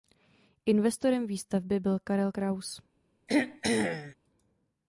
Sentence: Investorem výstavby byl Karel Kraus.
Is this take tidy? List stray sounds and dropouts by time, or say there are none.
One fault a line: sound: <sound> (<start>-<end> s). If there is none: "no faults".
sound: throat clearing (3.3-4.1 s)